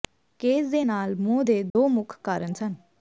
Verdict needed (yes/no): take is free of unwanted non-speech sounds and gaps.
no